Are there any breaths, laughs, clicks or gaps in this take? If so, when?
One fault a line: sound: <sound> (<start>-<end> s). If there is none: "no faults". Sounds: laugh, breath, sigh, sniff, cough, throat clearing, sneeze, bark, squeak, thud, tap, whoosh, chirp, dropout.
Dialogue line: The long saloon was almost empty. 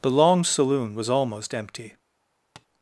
sound: tap (2.6-2.7 s)